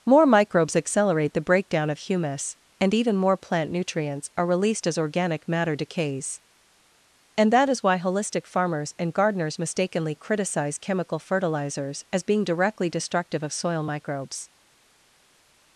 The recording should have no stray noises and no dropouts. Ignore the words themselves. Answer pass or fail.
pass